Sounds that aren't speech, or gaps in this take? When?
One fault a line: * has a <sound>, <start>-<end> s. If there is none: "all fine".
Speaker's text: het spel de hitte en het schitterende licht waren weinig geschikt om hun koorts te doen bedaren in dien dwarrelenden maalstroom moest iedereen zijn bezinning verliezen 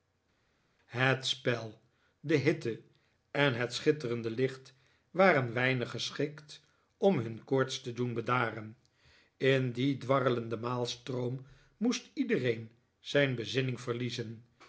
all fine